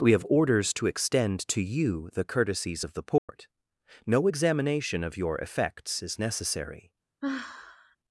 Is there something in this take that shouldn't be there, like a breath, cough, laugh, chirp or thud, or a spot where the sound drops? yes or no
yes